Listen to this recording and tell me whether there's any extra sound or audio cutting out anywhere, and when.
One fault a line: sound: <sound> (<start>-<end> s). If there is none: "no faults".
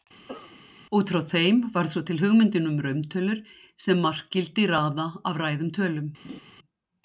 sound: cough (0.3-0.6 s)
sound: laugh (6.2-6.4 s)